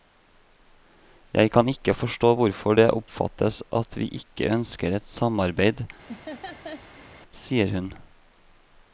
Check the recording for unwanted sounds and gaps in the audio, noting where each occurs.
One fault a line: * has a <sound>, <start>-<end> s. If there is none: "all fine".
* has a laugh, 6.1-7.1 s